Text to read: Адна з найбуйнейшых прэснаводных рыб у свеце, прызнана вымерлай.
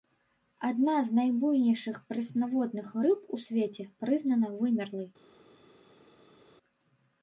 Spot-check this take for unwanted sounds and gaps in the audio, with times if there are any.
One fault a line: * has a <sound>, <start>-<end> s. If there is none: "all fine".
all fine